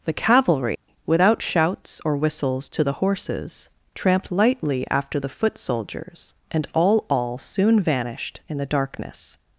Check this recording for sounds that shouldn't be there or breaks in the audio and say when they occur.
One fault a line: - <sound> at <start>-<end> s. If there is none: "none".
- dropout at 0.8-0.9 s